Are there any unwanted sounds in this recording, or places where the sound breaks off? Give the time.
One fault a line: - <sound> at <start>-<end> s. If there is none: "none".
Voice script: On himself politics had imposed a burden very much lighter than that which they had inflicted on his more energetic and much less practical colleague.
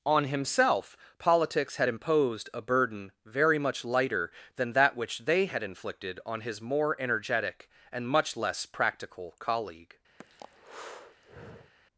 - breath at 10.2-11.7 s